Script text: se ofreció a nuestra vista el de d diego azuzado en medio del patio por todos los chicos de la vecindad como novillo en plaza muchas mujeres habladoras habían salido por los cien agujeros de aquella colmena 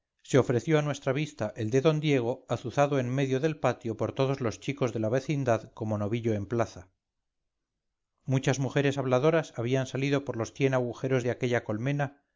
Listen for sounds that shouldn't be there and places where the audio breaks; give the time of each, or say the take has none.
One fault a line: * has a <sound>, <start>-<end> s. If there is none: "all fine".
all fine